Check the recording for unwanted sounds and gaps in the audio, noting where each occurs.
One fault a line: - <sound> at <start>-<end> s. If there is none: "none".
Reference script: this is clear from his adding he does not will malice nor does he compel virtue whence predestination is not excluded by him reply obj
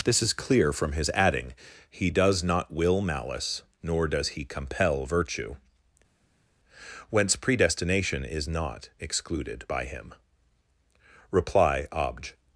none